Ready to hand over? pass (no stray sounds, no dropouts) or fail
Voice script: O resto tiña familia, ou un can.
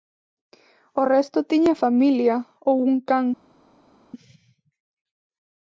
pass